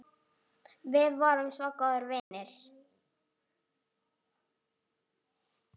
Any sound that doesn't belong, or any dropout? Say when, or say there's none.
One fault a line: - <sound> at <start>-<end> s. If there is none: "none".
- dropout at 2.2-2.3 s